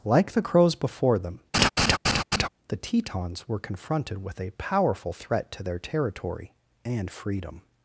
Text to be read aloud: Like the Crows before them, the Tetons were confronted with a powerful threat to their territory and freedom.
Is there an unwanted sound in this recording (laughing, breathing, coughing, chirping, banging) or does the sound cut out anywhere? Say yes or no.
yes